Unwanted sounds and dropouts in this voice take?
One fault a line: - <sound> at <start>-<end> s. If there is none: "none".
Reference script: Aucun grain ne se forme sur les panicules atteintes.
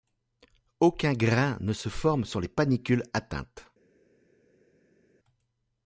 none